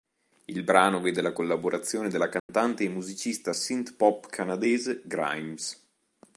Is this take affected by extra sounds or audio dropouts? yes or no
yes